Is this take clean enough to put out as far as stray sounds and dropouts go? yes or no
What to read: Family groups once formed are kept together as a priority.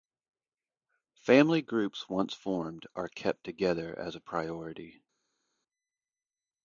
yes